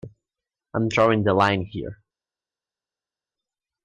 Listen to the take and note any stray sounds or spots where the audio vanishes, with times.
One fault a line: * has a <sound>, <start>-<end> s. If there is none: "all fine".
all fine